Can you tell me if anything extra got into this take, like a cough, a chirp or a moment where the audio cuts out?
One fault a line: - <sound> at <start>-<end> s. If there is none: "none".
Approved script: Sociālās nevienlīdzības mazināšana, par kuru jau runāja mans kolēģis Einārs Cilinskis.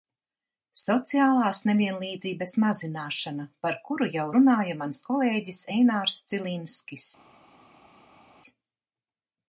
none